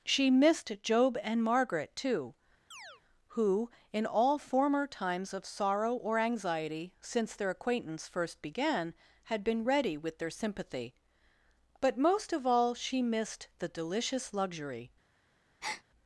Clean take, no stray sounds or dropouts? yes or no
no